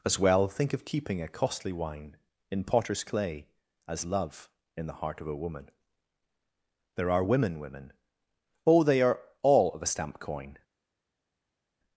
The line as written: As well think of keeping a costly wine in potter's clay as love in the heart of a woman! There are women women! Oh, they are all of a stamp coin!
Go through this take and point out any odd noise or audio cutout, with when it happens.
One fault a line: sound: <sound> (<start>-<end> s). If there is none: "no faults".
no faults